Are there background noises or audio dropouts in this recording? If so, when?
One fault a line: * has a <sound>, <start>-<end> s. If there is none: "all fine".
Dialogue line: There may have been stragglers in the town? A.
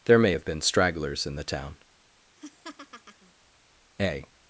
* has a laugh, 2.4-3.3 s